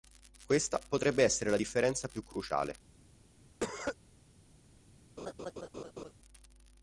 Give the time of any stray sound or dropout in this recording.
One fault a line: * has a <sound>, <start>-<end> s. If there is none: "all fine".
* has a cough, 3.6-4.0 s
* has a laugh, 5.2-6.1 s